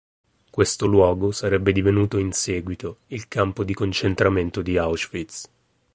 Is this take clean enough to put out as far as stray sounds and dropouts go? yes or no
yes